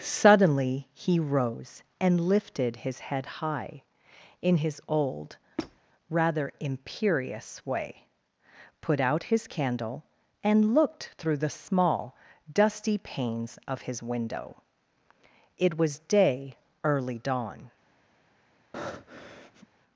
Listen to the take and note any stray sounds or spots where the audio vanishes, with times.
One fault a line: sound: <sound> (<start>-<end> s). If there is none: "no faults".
sound: squeak (5.6-5.8 s)
sound: breath (18.7-19.7 s)